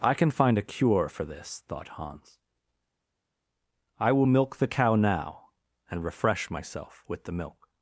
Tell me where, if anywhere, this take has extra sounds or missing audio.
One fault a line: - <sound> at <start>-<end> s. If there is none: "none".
none